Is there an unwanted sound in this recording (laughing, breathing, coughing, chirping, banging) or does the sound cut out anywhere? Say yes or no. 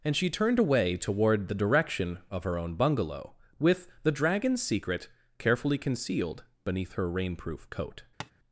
yes